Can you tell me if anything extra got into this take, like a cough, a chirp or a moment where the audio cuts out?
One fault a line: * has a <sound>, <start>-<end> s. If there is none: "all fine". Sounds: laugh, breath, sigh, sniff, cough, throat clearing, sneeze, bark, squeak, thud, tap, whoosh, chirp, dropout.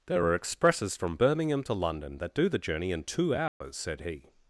* has a dropout, 3.5-3.6 s